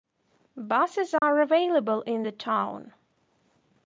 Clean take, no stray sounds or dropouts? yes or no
no